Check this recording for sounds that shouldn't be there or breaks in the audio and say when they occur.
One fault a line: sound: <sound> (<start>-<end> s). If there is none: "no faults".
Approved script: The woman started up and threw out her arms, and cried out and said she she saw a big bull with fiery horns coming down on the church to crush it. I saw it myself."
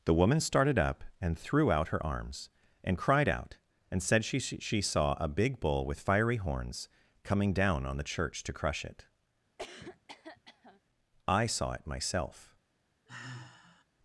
sound: cough (9.6-10.8 s)
sound: sigh (13.1-13.8 s)